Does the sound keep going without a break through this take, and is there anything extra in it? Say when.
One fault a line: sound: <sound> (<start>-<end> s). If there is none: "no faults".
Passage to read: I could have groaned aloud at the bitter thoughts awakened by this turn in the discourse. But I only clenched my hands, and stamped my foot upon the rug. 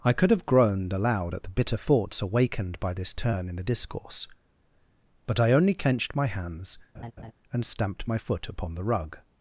sound: laugh (6.9-7.3 s)